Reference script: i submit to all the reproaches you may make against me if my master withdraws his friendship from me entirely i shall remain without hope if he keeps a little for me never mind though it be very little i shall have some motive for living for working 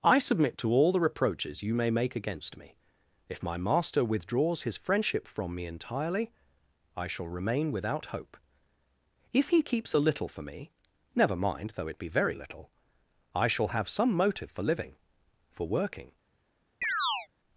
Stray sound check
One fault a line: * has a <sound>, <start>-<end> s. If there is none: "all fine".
* has a chirp, 16.8-17.3 s